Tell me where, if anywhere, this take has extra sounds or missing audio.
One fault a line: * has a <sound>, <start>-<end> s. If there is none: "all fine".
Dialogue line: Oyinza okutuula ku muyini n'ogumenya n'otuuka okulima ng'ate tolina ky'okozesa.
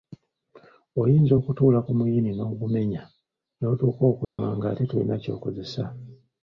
* has a dropout, 4.2-4.4 s